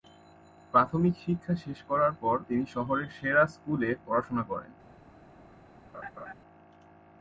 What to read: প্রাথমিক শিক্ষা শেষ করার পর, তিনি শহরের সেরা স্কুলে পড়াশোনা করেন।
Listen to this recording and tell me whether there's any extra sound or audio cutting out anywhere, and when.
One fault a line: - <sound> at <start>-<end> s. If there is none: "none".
- laugh at 5.9-6.3 s